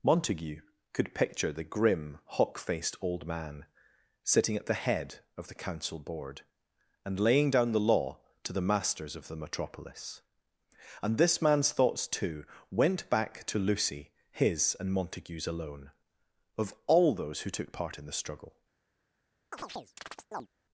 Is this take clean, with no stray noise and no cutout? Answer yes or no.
no